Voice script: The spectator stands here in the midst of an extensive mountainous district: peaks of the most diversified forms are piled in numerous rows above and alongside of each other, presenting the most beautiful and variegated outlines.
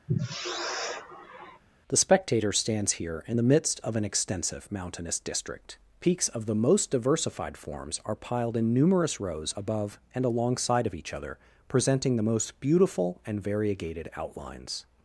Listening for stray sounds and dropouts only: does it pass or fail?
fail